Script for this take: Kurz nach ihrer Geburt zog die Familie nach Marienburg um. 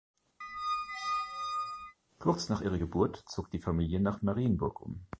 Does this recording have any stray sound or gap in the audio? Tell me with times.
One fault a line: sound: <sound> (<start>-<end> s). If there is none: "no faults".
sound: squeak (0.4-2.0 s)